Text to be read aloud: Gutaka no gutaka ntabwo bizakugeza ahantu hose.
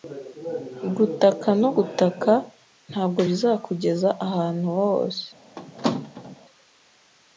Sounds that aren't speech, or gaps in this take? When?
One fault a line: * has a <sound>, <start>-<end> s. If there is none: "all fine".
* has a squeak, 5.6-6.4 s